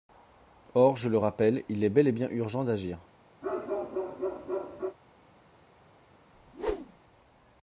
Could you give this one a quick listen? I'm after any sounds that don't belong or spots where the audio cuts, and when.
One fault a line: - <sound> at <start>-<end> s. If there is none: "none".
- bark at 3.4-5.0 s
- whoosh at 6.3-7.0 s